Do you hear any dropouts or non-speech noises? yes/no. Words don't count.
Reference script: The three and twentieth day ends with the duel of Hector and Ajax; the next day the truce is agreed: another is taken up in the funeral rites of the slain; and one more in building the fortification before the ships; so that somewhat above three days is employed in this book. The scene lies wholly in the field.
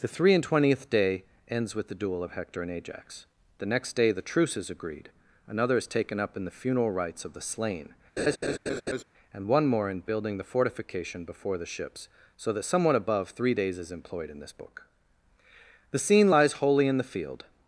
yes